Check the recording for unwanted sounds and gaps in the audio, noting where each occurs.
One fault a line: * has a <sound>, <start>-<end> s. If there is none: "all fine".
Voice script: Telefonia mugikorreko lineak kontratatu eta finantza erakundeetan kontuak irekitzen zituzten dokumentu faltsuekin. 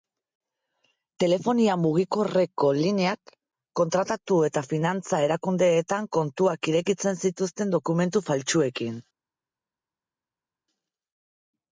all fine